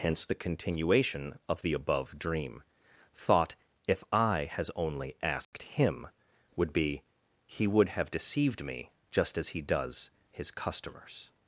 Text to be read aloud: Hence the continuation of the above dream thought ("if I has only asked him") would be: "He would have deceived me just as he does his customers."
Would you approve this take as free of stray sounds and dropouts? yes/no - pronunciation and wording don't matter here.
no